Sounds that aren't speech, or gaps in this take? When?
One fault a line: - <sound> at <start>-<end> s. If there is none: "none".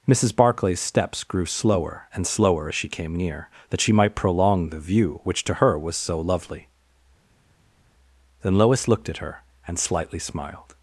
none